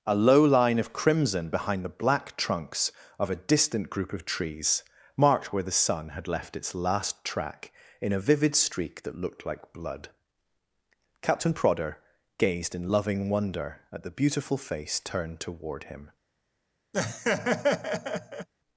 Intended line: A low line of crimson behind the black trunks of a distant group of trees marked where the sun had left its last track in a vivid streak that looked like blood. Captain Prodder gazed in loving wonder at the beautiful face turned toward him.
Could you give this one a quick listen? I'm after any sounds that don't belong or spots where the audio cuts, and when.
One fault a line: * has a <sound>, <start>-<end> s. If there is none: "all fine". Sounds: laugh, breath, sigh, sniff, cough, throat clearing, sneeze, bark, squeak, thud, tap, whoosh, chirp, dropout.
* has a laugh, 16.9-18.5 s